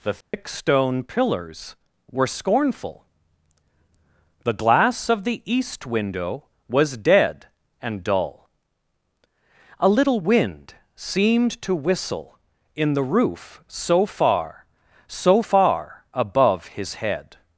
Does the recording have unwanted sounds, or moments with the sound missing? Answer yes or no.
yes